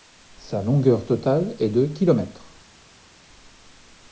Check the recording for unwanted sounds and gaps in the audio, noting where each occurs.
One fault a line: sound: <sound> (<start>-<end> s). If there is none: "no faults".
no faults